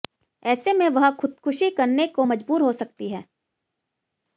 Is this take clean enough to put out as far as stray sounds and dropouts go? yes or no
yes